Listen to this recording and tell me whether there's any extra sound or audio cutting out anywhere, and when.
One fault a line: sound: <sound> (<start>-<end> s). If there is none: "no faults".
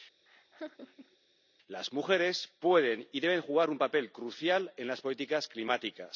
sound: laugh (0.3-1.2 s)